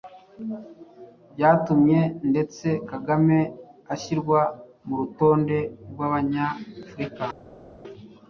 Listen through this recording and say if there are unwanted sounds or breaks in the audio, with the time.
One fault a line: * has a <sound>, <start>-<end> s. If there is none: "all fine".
all fine